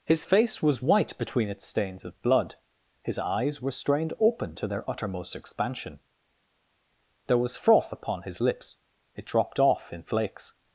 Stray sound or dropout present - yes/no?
no